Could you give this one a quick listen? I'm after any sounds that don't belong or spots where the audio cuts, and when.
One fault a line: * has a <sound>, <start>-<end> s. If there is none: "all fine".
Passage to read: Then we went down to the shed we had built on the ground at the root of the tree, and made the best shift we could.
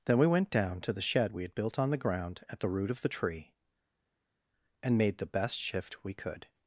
all fine